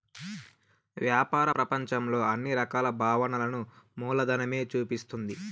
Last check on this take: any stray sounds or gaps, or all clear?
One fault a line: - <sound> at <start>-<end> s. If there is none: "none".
none